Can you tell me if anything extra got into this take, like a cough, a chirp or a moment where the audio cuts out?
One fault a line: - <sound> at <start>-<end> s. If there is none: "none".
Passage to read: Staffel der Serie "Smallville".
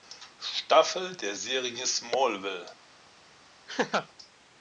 - laugh at 3.7-4.1 s